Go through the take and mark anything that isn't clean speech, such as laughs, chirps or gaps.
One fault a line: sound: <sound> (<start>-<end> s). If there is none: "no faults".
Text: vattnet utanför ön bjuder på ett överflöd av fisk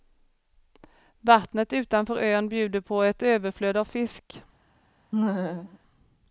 sound: laugh (5.1-5.8 s)